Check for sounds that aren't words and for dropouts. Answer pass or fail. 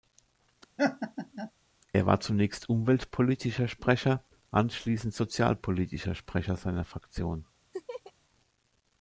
fail